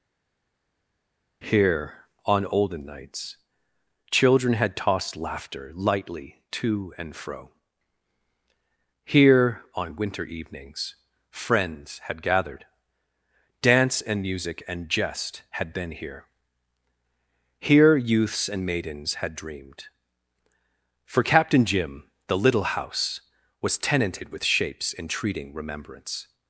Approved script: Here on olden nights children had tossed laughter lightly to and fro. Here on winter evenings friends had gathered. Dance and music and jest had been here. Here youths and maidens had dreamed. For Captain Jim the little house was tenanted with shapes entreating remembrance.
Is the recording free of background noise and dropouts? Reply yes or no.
yes